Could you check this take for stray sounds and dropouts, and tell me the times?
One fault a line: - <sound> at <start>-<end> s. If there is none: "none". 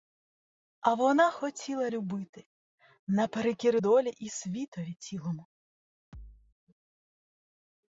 - thud at 6.1-6.6 s